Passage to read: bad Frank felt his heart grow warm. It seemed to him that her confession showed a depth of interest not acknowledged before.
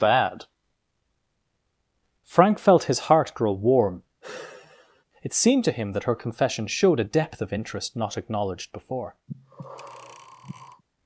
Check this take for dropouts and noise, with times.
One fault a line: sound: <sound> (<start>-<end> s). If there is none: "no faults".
sound: sigh (4.2-5.0 s)
sound: breath (9.3-10.8 s)